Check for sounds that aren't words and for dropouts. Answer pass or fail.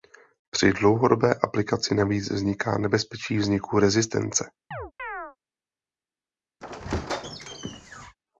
fail